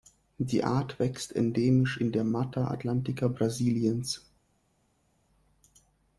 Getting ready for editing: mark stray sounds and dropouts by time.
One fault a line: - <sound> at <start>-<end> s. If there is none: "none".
none